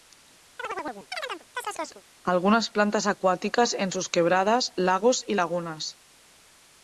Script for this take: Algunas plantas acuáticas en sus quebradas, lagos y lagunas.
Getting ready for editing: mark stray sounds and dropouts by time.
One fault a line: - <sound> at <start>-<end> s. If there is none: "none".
- chirp at 0.6-2.0 s